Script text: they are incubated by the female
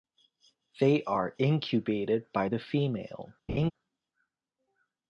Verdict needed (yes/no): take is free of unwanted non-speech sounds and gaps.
no